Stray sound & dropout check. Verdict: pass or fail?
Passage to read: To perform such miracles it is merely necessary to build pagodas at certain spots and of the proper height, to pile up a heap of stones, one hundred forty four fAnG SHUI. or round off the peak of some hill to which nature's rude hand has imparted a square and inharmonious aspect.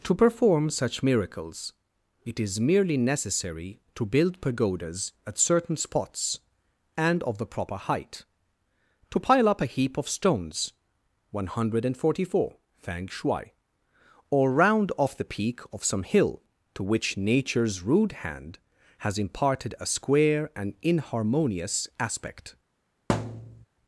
fail